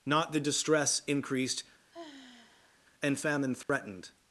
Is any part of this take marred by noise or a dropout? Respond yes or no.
yes